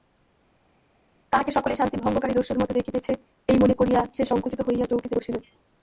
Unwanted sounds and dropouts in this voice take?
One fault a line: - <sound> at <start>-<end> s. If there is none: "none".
none